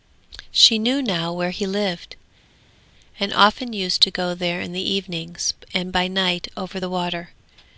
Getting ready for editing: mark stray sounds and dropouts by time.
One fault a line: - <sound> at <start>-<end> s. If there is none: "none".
none